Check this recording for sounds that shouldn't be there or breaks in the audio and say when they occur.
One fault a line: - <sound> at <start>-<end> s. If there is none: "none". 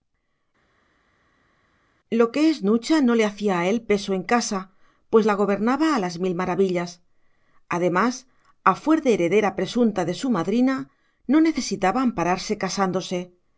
none